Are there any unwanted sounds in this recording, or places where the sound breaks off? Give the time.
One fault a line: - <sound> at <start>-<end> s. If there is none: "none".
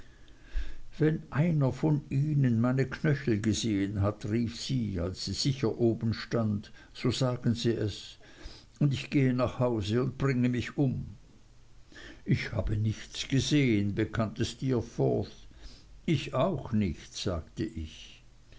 none